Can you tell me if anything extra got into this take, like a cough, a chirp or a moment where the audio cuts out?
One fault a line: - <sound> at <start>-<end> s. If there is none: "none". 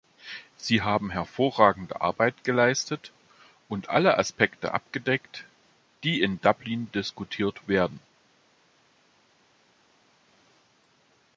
none